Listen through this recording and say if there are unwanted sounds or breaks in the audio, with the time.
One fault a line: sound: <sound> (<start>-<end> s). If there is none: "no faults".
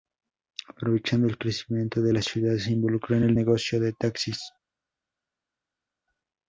no faults